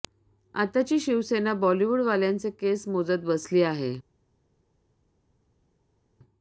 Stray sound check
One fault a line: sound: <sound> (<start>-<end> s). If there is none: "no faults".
no faults